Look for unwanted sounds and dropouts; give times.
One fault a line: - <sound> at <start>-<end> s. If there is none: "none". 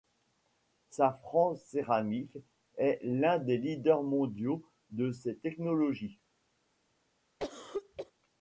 - cough at 7.4-8.1 s